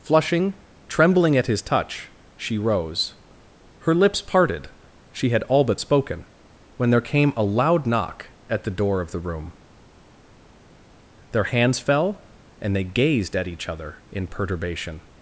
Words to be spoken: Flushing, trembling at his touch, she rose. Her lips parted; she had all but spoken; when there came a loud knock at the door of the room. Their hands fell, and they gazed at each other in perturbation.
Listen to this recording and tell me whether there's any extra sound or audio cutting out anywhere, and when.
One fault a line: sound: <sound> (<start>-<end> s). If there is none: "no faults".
no faults